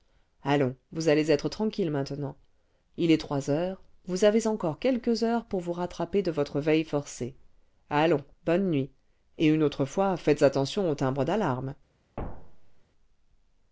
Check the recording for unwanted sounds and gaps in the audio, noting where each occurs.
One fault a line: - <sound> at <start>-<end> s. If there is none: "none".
- thud at 12.2-12.8 s